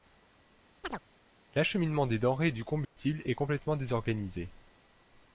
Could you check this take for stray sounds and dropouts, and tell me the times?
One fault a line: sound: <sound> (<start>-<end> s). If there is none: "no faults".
sound: chirp (0.8-1.0 s)
sound: dropout (2.8-3.0 s)